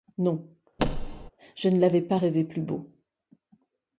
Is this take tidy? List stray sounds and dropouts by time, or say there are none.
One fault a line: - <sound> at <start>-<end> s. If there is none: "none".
- thud at 0.8-1.3 s